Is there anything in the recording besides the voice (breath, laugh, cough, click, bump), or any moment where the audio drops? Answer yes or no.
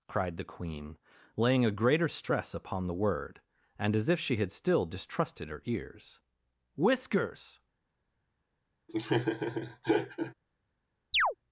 yes